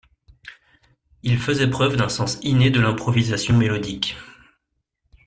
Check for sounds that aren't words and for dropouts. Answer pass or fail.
pass